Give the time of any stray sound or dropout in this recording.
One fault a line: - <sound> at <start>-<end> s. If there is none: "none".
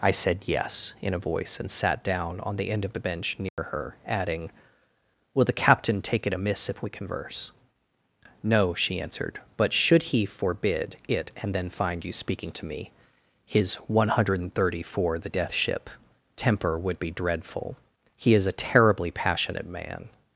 - dropout at 3.5-3.6 s